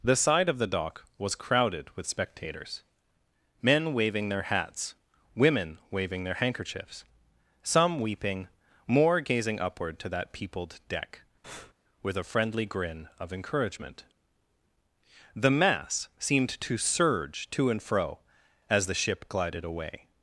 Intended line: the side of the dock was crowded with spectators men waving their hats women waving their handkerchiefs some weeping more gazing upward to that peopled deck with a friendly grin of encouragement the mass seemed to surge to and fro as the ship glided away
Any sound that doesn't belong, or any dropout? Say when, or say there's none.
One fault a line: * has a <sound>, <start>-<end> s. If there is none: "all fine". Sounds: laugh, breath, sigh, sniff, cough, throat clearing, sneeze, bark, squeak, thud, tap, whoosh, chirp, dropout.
* has a breath, 11.4-11.7 s